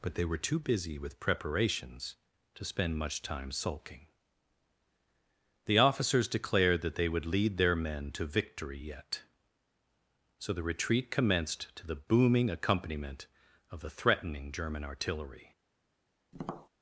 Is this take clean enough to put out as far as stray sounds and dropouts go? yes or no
no